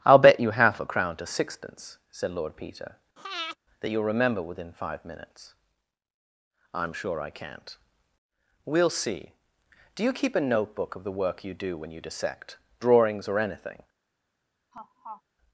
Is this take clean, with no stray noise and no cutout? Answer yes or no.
no